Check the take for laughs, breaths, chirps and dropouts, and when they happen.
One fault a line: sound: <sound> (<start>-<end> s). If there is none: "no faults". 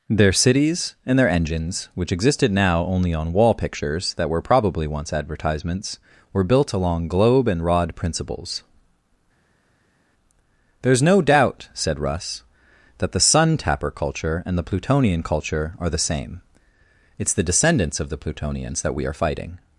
no faults